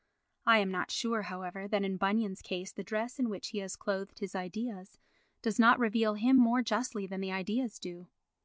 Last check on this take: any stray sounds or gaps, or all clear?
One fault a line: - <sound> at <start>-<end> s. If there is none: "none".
none